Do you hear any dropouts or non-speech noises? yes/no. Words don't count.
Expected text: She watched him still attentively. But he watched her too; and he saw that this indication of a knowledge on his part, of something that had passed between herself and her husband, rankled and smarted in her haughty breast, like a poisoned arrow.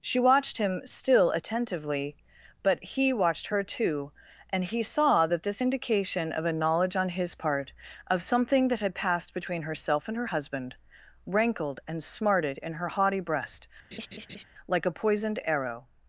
yes